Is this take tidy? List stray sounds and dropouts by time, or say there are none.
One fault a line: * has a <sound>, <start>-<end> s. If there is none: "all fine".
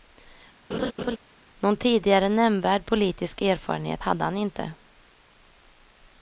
* has a laugh, 0.7-1.2 s